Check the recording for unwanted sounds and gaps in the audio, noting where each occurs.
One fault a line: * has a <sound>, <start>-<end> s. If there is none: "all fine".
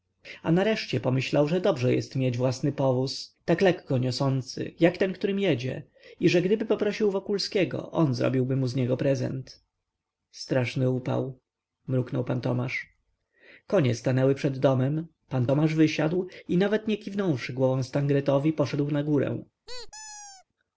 * has a squeak, 19.7-20.4 s